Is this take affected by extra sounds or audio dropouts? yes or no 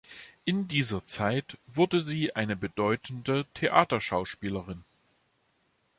no